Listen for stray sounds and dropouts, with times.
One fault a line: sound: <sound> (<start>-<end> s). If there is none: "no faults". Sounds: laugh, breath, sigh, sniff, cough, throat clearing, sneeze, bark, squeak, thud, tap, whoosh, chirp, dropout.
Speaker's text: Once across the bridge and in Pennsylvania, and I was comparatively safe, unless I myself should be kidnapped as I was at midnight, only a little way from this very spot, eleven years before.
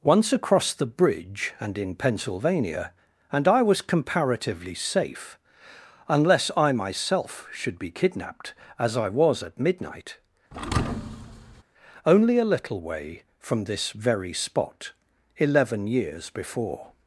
sound: thud (10.5-11.6 s)